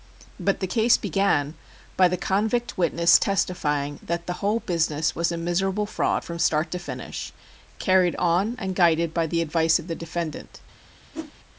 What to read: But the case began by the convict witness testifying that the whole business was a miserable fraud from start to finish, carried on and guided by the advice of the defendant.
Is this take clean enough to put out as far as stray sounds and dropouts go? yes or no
no